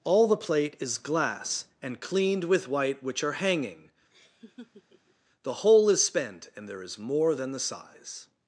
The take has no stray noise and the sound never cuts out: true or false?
false